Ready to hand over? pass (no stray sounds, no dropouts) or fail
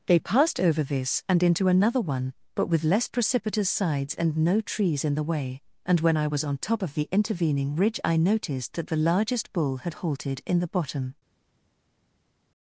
pass